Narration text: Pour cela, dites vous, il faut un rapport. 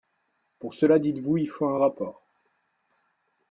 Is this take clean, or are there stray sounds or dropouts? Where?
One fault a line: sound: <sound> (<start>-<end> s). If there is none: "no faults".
no faults